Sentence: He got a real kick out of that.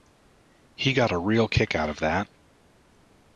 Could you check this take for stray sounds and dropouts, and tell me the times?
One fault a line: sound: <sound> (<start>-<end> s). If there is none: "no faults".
no faults